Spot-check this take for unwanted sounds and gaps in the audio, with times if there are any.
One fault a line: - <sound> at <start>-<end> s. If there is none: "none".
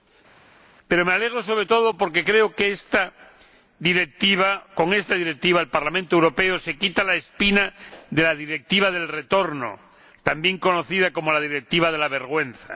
none